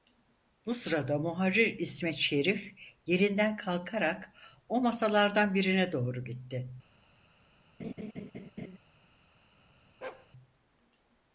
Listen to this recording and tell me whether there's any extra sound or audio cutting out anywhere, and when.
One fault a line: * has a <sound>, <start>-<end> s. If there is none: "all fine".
* has a laugh, 7.8-8.8 s
* has a bark, 10.0-10.3 s